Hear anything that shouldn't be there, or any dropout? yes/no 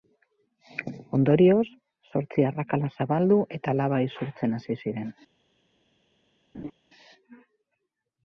yes